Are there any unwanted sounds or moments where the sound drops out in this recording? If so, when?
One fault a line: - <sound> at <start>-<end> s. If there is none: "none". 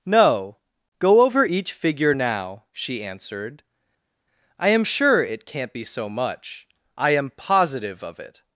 none